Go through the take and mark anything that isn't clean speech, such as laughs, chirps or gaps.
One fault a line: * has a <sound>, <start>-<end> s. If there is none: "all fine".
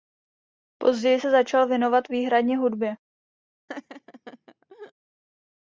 * has a laugh, 3.7-4.9 s